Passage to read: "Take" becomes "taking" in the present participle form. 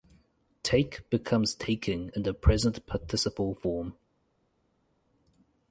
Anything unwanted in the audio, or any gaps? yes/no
no